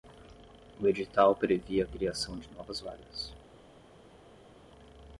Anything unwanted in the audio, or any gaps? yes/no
no